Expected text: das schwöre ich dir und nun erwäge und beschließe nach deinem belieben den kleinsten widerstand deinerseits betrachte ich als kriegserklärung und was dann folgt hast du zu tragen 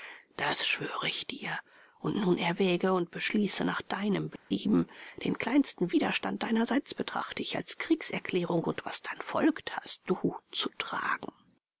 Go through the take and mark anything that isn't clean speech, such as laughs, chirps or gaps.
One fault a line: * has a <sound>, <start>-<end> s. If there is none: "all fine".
* has a dropout, 4.4-4.5 s